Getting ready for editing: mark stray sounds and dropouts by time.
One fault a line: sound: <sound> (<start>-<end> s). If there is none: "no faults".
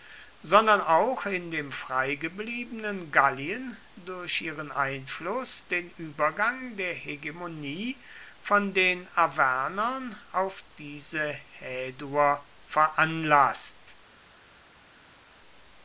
no faults